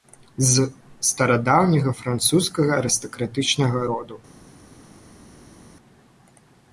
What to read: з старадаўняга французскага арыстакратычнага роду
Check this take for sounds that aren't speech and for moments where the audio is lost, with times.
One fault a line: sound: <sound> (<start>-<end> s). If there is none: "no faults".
no faults